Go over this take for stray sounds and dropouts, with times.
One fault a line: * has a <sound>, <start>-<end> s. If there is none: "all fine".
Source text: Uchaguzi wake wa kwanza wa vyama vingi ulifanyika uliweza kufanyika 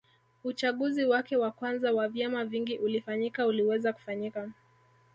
all fine